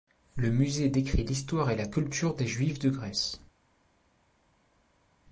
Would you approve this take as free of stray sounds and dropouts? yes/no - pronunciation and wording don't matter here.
yes